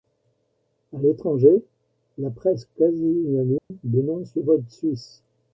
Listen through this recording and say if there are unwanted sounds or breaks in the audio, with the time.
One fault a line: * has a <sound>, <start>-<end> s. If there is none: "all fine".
* has a dropout, 3.6-3.7 s